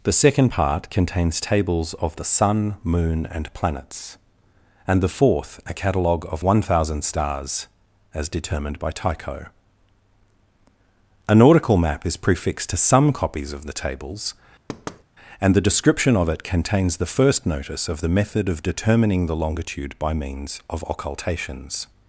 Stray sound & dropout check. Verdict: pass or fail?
fail